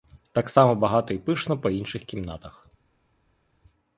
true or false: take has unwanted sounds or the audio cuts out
false